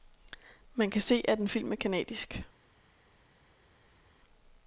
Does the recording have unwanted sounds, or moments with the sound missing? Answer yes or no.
no